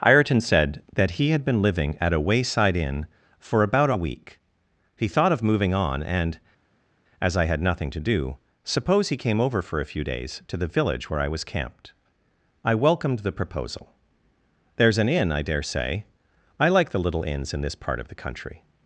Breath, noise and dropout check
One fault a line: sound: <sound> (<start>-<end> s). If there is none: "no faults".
no faults